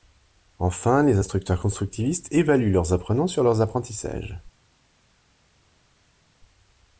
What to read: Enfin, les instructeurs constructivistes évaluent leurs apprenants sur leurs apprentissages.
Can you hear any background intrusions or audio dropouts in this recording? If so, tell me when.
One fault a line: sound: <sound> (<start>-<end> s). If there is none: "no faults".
no faults